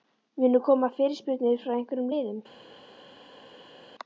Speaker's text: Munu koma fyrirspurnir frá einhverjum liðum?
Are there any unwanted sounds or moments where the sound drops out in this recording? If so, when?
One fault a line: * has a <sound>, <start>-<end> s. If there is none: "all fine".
all fine